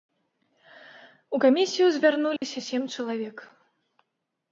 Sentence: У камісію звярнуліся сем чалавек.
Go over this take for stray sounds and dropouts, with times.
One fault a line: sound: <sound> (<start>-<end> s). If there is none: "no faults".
sound: dropout (2.4-2.4 s)